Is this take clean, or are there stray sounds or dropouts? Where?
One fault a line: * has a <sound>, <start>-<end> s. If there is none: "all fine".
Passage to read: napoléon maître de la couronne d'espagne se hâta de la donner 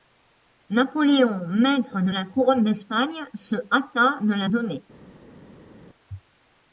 all fine